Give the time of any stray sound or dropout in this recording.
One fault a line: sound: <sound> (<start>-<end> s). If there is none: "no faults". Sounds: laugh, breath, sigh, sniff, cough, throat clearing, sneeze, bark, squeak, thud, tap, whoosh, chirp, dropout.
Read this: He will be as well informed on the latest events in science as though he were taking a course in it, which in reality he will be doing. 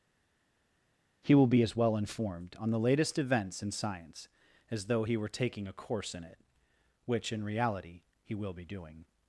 no faults